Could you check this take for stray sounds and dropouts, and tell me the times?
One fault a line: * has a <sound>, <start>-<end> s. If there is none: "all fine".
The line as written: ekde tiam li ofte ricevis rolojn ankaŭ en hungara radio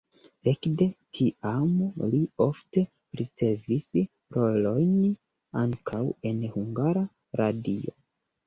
all fine